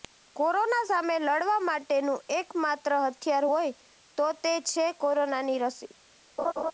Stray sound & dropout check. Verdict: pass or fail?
fail